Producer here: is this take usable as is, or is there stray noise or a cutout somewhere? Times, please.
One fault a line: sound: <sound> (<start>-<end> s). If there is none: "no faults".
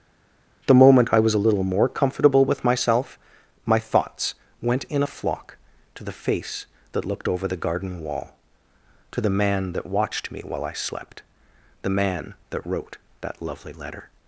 no faults